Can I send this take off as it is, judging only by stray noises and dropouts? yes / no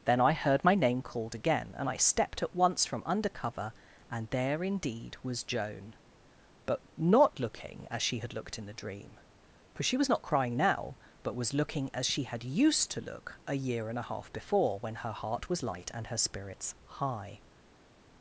yes